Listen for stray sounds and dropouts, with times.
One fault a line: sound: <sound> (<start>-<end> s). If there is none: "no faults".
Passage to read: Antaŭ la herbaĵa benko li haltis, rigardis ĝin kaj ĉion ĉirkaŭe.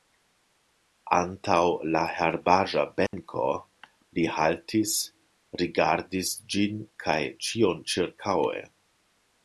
sound: dropout (3.1-3.1 s)